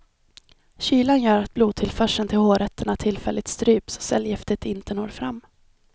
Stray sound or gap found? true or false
false